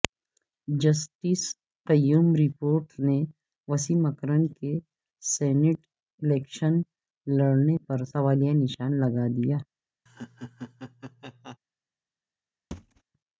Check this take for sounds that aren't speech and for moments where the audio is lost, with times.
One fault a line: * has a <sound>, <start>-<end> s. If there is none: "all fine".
* has a laugh, 10.1-11.6 s
* has a thud, 12.7-13.0 s